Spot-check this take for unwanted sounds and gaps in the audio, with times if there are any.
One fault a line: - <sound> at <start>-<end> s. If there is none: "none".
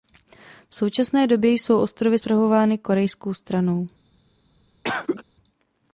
- cough at 4.8-5.2 s